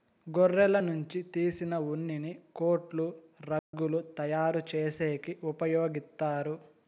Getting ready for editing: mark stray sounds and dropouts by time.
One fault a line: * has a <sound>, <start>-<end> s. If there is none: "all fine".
* has a dropout, 3.6-3.7 s